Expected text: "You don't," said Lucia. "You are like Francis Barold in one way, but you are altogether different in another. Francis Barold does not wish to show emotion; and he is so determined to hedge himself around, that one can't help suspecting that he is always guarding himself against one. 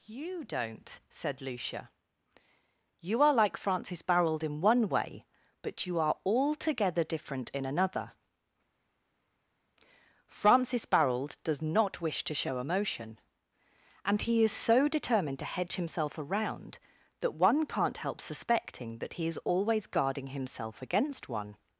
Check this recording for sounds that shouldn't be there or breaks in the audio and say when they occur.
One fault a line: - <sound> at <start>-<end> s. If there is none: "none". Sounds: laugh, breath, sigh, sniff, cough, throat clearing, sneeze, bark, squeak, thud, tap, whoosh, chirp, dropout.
none